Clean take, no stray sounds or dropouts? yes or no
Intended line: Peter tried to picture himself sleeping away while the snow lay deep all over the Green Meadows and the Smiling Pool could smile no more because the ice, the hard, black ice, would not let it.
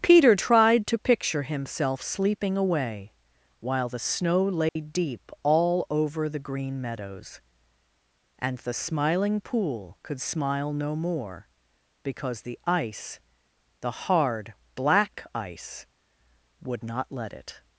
no